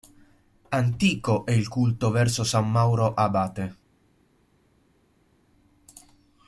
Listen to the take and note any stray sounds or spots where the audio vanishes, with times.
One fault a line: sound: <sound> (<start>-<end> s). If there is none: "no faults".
no faults